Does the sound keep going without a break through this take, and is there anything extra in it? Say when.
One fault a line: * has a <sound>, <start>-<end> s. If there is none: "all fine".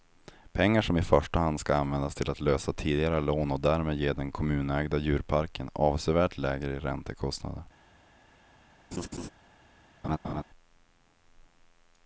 * has a laugh, 8.9-9.3 s
* has a laugh, 10.0-10.4 s